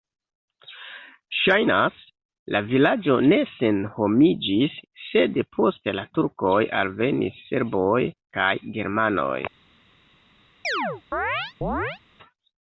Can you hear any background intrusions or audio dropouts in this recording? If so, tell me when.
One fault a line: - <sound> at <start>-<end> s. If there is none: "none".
- chirp at 10.6-12.0 s